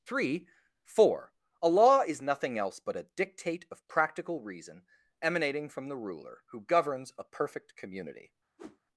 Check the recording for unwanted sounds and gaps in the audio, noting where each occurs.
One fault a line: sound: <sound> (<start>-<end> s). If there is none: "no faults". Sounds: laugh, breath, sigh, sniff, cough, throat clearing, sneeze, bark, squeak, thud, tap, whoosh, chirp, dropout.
sound: whoosh (8.6-8.8 s)